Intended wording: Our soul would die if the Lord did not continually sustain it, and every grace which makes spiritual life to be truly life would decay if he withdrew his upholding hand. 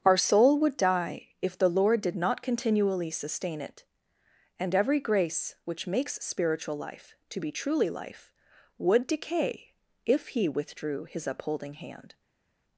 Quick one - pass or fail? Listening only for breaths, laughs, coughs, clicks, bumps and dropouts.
pass